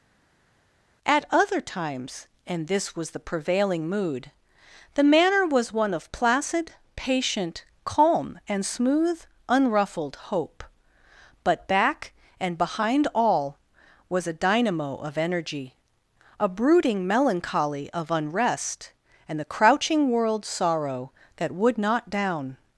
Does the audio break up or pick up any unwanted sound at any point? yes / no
no